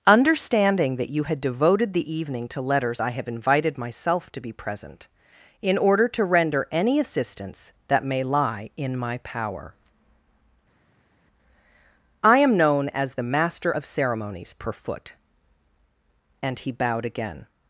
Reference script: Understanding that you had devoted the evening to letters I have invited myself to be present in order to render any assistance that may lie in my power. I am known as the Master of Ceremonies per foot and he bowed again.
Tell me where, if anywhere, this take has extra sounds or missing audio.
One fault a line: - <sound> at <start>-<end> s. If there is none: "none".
none